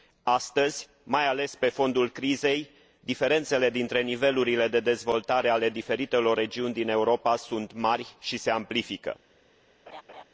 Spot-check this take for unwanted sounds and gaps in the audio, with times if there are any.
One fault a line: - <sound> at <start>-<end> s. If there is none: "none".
- laugh at 9.9-10.2 s